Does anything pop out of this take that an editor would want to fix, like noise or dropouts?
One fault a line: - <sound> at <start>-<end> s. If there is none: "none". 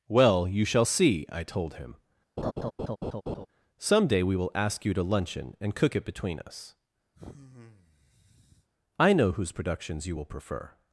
- laugh at 2.4-3.5 s
- sigh at 7.1-8.7 s